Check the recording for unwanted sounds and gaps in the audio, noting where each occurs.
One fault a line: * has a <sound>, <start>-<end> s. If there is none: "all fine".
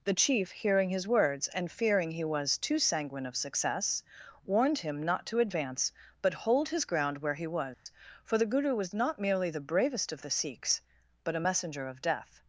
* has a dropout, 7.7-7.9 s